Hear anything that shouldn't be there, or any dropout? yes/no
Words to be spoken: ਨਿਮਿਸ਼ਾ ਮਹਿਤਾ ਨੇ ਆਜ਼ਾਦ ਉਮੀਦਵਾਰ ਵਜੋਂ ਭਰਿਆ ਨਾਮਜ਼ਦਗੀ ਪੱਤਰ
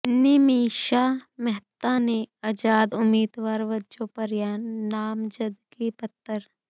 no